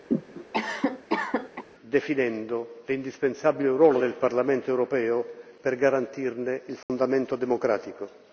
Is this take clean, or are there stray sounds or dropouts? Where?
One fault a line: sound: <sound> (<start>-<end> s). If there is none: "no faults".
sound: cough (0.1-1.6 s)
sound: dropout (6.8-6.9 s)